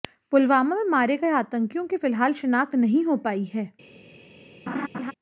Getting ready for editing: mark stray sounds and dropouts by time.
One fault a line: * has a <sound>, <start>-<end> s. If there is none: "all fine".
* has a laugh, 4.7-5.1 s